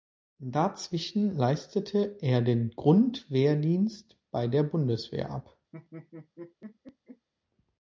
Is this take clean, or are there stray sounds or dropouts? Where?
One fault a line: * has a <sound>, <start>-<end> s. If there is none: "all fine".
* has a laugh, 5.7-7.3 s